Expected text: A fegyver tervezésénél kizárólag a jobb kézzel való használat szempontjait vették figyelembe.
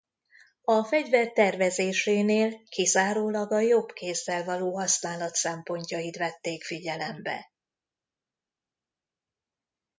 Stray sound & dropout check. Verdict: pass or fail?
pass